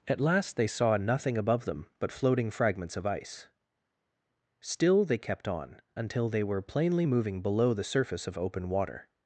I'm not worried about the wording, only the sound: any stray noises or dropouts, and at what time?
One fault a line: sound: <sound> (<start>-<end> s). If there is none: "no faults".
no faults